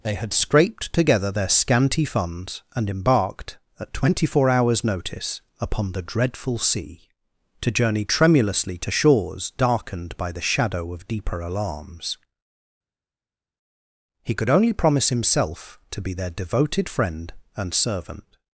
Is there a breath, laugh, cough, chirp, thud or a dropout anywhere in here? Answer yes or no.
no